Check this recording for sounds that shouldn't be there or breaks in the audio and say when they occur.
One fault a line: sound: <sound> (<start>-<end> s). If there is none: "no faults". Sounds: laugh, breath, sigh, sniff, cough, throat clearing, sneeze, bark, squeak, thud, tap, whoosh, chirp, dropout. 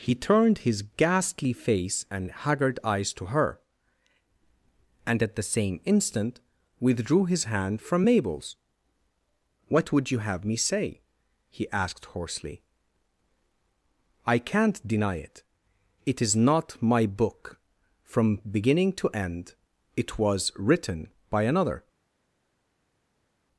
no faults